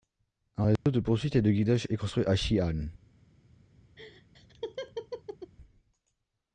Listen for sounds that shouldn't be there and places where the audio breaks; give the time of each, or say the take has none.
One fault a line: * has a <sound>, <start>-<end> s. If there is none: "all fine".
* has a dropout, 0.8-0.9 s
* has a laugh, 4.0-5.5 s